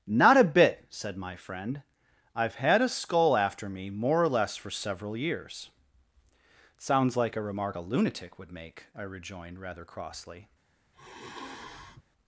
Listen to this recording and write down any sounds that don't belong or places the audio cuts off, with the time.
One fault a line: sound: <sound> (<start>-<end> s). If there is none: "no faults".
sound: sigh (10.9-12.0 s)